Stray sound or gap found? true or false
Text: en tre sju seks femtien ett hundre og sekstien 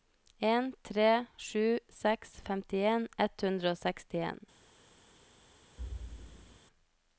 true